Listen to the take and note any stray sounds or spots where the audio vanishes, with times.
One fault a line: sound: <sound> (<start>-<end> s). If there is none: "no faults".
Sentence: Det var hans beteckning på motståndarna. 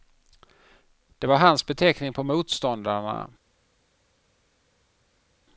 no faults